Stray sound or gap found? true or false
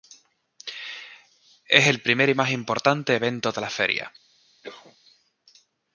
true